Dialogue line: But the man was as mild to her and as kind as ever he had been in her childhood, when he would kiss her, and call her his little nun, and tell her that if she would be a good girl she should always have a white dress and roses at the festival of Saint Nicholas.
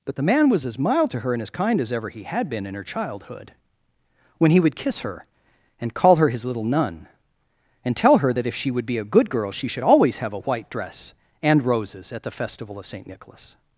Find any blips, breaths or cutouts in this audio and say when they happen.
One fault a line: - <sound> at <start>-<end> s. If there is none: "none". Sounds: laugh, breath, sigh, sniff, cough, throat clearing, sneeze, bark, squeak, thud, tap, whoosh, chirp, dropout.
none